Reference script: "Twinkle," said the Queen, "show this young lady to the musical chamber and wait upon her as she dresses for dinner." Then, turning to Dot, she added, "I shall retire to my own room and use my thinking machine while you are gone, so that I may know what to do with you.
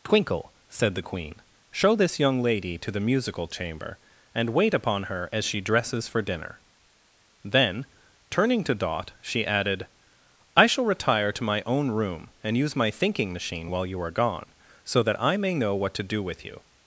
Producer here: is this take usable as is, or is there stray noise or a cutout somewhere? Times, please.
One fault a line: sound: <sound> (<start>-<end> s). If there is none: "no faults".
no faults